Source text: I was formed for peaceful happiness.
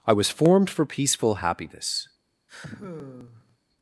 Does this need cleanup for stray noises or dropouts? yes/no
yes